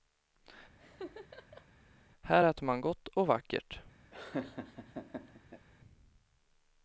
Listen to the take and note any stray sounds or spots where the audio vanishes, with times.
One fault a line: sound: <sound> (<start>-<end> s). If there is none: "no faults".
sound: laugh (0.8-1.7 s)
sound: laugh (4.1-5.7 s)